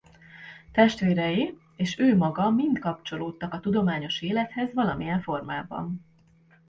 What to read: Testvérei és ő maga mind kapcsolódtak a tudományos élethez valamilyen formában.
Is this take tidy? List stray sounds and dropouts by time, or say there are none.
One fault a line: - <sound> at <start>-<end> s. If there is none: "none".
none